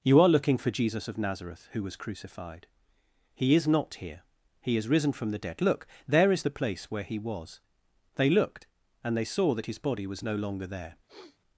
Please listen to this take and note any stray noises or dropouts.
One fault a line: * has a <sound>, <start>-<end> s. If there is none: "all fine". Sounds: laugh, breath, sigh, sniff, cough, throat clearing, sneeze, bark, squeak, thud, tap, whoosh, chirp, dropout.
* has a sniff, 11.1-11.4 s